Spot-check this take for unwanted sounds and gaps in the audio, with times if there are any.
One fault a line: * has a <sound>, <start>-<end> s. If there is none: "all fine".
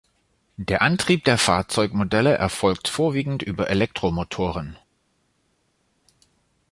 all fine